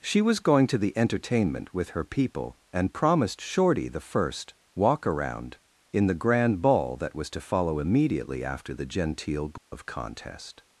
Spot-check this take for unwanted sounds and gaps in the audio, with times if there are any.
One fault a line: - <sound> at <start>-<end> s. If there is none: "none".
- dropout at 9.6-9.7 s